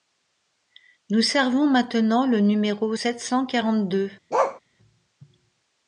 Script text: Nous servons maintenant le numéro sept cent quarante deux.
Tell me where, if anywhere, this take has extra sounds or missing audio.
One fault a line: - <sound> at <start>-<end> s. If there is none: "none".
- bark at 4.3-4.6 s